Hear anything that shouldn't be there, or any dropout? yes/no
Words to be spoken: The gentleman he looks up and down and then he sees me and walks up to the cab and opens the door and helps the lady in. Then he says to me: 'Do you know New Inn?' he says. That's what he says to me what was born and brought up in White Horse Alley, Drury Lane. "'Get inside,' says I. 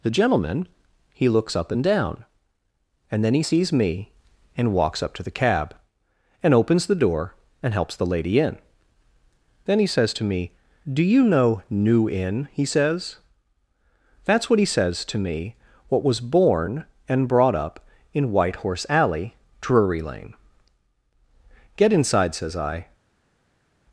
no